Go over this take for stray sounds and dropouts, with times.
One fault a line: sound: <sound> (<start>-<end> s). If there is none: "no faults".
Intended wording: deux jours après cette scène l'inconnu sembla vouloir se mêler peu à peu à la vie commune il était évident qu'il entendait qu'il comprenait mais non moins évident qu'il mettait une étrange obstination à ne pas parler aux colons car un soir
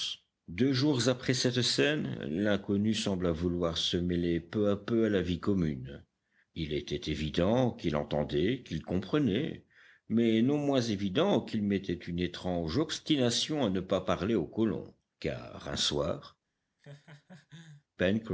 sound: laugh (16.8-17.8 s)